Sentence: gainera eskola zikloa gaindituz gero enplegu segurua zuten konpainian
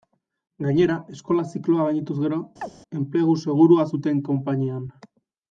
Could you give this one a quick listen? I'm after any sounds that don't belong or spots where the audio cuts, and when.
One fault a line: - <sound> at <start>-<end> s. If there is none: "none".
- chirp at 2.6-2.7 s